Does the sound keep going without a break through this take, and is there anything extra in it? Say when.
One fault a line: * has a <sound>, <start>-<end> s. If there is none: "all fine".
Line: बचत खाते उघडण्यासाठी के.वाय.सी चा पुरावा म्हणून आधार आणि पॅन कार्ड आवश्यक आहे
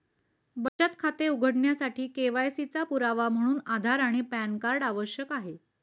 * has a dropout, 0.7-0.8 s